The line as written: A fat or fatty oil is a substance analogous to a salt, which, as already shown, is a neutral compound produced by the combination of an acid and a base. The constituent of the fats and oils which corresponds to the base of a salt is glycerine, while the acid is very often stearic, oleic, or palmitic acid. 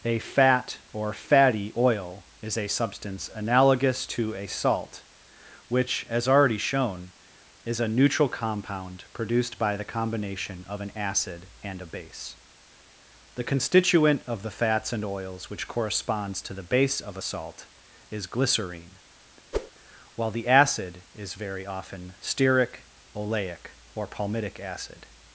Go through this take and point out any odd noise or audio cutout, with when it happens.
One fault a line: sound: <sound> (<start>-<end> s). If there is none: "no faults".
sound: whoosh (19.5-19.7 s)